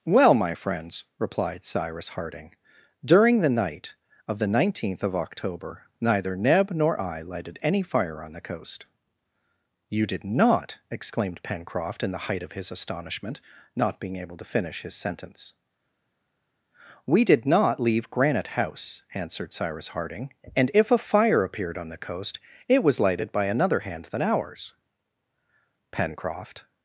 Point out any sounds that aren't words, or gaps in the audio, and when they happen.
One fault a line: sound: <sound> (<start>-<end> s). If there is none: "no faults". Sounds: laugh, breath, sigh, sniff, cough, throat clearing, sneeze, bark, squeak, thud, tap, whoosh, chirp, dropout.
no faults